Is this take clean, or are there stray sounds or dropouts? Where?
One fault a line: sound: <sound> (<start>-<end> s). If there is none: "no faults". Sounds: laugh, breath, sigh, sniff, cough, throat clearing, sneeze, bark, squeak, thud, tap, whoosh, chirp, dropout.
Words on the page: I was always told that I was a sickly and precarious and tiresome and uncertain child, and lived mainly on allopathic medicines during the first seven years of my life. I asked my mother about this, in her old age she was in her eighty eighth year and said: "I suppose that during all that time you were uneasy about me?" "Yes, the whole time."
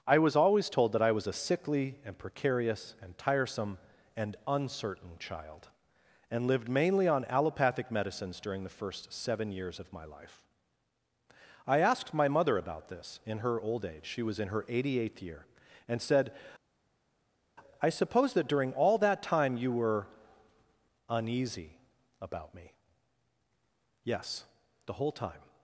no faults